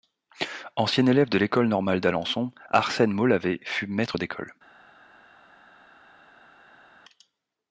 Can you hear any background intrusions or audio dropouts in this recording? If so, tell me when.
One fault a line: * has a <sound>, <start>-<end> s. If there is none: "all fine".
all fine